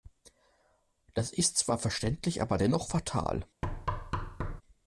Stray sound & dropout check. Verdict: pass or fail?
fail